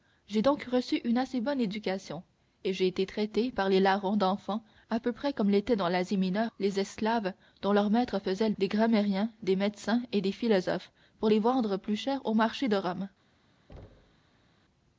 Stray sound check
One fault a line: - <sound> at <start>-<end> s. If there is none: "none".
- thud at 13.7-14.5 s